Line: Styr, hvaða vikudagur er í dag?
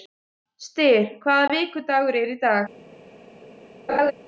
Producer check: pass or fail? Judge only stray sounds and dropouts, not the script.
fail